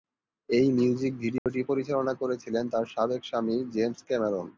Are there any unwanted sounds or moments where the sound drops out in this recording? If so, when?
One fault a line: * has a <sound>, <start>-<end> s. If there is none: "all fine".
* has a dropout, 1.4-1.5 s